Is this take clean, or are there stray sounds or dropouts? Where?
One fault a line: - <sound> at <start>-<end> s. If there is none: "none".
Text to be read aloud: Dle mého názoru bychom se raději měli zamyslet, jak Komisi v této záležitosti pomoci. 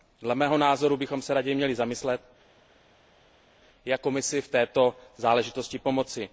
none